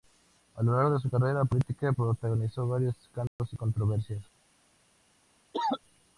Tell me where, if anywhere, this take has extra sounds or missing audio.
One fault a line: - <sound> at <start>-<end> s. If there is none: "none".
- dropout at 3.3-3.4 s
- cough at 5.5-5.8 s